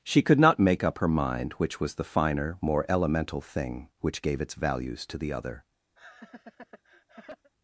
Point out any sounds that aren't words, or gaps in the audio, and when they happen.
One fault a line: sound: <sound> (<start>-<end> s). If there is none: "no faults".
sound: laugh (6.0-7.5 s)